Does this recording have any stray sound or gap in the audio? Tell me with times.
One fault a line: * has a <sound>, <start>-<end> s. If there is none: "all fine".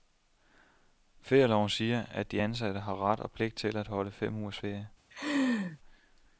* has a laugh, 5.1-5.8 s